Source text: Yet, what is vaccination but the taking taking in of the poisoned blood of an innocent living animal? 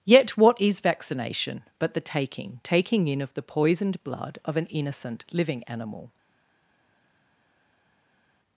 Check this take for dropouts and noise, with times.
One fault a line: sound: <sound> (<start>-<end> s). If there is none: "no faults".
no faults